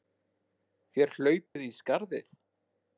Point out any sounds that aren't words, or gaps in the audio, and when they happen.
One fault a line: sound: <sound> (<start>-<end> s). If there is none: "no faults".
sound: dropout (1.5-1.6 s)